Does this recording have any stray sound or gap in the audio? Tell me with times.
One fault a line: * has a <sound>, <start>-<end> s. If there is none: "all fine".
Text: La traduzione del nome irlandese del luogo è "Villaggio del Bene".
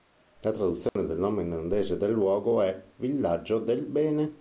* has a dropout, 0.9-1.0 s